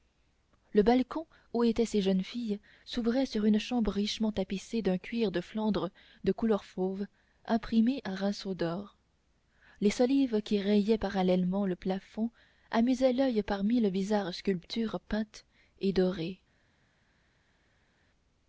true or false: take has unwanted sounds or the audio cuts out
false